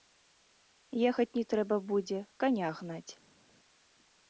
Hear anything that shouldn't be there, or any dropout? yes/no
no